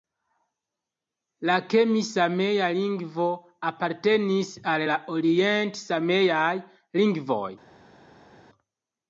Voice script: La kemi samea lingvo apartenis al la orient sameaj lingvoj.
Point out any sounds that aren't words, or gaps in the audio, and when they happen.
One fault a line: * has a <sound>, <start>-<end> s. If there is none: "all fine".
all fine